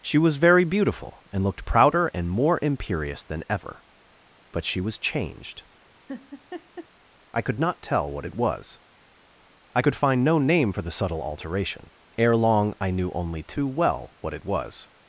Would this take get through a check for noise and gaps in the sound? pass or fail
fail